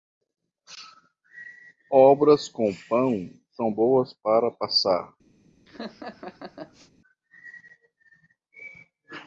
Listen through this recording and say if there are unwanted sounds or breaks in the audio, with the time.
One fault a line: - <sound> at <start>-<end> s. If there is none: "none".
- laugh at 5.7-6.9 s